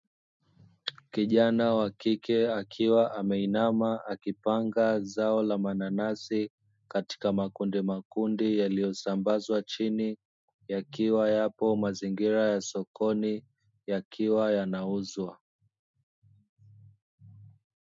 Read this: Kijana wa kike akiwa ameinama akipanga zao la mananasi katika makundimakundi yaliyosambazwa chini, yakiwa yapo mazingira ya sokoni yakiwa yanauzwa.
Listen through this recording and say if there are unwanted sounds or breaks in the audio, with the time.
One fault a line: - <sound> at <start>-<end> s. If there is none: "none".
none